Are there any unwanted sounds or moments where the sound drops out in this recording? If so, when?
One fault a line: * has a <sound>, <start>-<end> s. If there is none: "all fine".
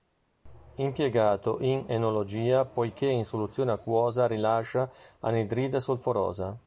all fine